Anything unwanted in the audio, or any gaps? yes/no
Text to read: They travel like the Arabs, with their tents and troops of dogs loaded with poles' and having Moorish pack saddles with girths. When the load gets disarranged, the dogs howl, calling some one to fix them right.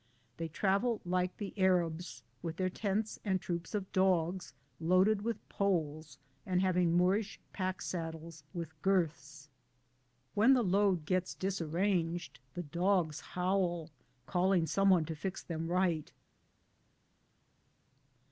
no